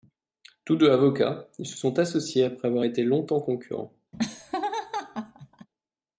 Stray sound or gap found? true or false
true